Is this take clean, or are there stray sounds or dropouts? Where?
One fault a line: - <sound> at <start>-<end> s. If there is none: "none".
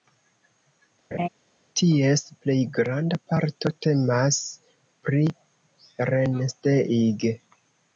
- laugh at 1.1-1.3 s